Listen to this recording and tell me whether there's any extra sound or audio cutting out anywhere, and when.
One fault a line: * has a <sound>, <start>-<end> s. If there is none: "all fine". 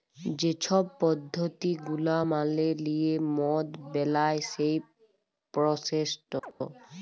* has a chirp, 6.4-6.5 s